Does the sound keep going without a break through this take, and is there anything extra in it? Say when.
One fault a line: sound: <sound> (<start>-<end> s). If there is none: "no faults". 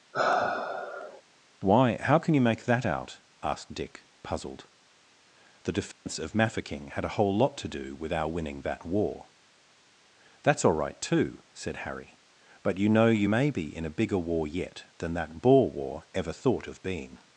sound: sigh (0.1-1.2 s)
sound: dropout (5.9-6.1 s)